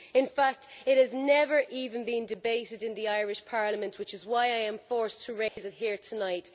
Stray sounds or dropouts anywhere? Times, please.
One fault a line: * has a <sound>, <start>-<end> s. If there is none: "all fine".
* has a dropout, 5.5-5.6 s